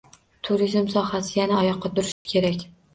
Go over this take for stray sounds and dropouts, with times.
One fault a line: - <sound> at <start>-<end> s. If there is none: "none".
- dropout at 2.1-2.3 s